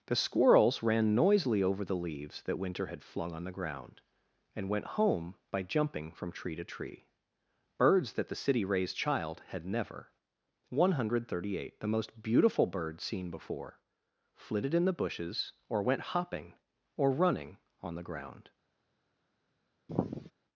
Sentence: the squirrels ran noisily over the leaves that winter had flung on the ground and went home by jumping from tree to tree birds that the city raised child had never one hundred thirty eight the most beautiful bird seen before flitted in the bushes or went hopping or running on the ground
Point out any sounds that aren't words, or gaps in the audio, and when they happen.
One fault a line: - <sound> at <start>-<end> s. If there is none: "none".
- sigh at 19.9-20.3 s